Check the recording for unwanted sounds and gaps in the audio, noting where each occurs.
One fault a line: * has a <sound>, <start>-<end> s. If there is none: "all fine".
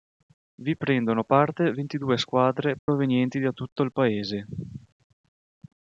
* has a dropout, 2.8-2.9 s